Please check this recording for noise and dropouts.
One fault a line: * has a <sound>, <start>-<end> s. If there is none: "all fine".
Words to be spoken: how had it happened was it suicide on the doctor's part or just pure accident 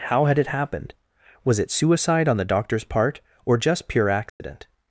* has a dropout, 4.3-4.4 s